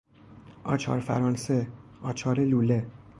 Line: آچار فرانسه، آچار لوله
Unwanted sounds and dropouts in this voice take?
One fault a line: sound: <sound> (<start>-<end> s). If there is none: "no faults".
no faults